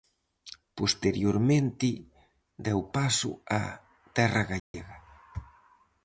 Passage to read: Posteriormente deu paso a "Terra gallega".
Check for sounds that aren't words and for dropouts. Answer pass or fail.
fail